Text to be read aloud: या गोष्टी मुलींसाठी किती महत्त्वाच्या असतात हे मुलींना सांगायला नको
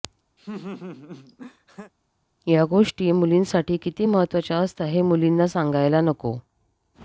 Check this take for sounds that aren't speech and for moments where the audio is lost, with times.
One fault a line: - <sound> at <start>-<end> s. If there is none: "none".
- laugh at 0.4-1.9 s